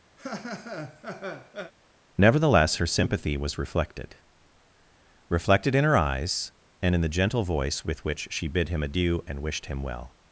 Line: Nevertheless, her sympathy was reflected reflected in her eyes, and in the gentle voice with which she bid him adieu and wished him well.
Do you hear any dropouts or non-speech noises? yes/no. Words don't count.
yes